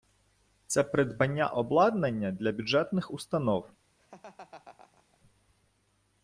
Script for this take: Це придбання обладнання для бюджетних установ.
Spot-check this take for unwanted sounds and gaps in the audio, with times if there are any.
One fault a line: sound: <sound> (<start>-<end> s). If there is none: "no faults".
sound: laugh (4.0-5.2 s)